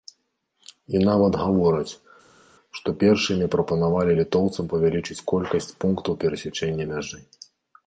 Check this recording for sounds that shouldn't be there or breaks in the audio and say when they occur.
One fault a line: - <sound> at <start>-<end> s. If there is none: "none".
none